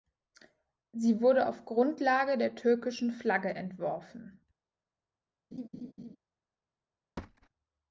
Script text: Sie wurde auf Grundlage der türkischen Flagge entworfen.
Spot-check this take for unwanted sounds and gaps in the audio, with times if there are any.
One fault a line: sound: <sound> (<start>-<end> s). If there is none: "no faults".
sound: laugh (5.5-6.2 s)
sound: thud (7.2-7.5 s)